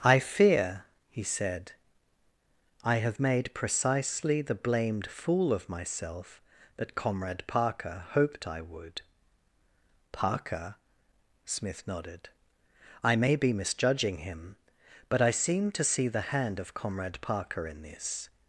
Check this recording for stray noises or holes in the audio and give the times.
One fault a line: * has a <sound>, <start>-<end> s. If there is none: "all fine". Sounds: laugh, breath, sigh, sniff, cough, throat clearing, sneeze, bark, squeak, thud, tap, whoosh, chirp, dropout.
all fine